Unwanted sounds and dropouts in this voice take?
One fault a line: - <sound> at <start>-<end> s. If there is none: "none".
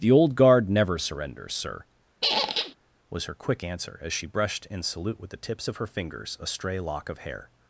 - squeak at 2.2-2.8 s